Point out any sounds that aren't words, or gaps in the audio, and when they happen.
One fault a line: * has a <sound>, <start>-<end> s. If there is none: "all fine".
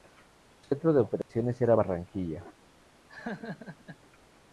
* has a dropout, 1.2-1.3 s
* has a laugh, 3.1-4.0 s